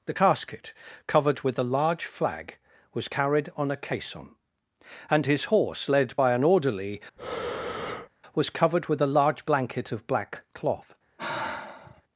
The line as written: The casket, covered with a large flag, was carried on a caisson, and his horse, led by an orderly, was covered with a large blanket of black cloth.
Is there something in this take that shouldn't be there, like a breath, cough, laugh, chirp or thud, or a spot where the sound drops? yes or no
yes